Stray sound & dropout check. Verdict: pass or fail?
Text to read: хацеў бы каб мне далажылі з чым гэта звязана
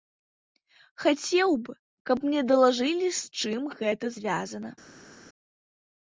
pass